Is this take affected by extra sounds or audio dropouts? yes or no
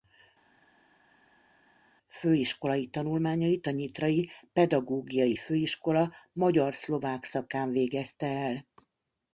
no